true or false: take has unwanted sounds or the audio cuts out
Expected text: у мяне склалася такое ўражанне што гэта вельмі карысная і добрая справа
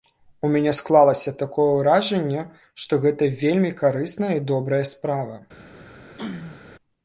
true